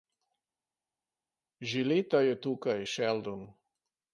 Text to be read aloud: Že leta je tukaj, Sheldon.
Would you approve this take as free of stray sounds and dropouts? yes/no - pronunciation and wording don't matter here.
yes